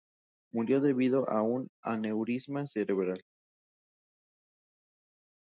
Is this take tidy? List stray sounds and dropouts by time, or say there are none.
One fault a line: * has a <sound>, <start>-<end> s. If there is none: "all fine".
all fine